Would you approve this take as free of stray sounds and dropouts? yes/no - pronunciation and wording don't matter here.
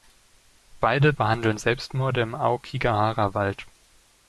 yes